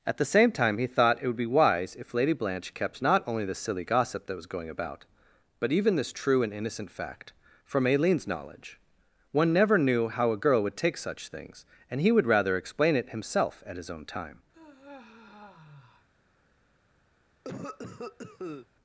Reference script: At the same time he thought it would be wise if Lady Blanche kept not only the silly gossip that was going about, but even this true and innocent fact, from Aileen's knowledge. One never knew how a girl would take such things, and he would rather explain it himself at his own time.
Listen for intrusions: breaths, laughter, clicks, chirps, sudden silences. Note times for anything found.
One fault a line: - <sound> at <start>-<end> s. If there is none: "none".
- sigh at 14.5-16.1 s
- cough at 17.4-18.7 s